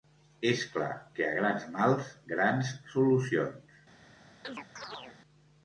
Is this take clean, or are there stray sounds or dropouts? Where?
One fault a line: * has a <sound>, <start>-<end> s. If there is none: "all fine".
* has a chirp, 4.4-5.2 s